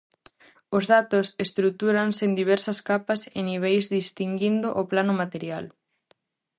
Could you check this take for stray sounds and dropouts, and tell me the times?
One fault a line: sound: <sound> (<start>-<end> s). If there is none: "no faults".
no faults